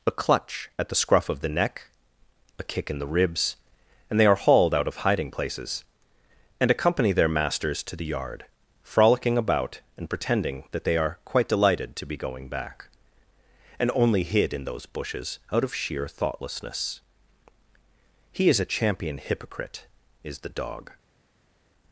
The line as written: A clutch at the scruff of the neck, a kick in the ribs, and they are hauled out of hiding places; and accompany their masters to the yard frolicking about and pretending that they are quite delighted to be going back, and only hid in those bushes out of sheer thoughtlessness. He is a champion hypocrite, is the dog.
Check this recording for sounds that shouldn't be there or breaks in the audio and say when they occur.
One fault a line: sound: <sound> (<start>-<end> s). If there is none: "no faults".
no faults